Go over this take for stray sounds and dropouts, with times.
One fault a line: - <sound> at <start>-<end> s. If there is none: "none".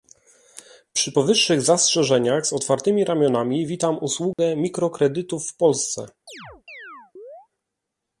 - dropout at 4.3-4.4 s
- chirp at 6.3-7.5 s